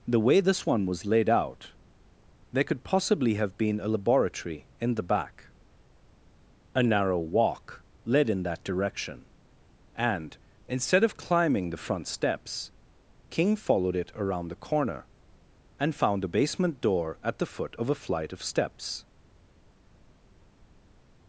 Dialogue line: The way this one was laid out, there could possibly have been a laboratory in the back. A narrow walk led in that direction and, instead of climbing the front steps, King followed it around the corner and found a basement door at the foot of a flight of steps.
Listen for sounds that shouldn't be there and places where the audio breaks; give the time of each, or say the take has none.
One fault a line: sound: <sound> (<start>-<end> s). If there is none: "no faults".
no faults